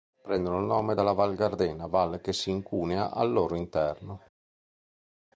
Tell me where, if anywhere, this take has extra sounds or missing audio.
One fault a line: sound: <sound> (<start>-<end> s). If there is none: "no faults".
no faults